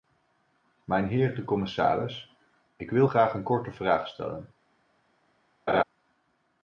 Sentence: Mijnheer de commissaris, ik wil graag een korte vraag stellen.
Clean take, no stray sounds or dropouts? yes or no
no